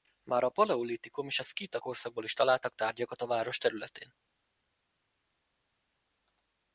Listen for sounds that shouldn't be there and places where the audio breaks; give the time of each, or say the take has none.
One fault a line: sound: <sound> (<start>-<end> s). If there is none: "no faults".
no faults